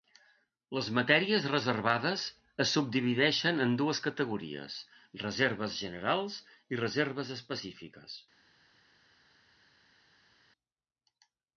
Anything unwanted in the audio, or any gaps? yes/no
no